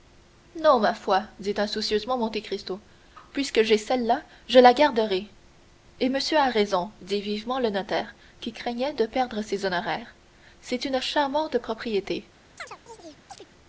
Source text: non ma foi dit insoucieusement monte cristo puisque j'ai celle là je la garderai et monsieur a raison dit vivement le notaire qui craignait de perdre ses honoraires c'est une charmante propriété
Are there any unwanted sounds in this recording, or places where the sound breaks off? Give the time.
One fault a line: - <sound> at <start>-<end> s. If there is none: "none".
- chirp at 12.6-13.5 s